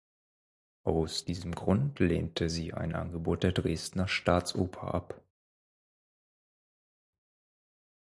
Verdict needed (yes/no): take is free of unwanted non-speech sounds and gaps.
yes